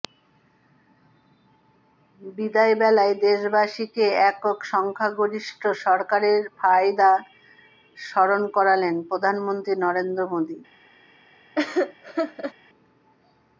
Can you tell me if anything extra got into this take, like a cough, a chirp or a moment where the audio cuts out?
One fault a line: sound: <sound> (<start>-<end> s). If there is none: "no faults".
sound: laugh (11.6-12.5 s)